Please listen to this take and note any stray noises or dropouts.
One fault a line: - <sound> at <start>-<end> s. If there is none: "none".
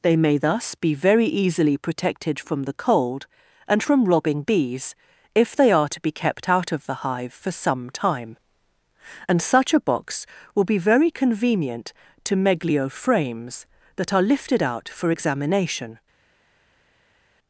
none